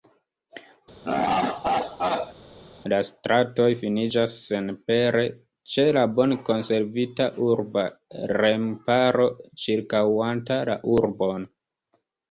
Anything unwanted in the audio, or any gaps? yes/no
yes